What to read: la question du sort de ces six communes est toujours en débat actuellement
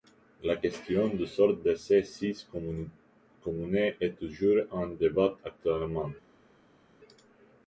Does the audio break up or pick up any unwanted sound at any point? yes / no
no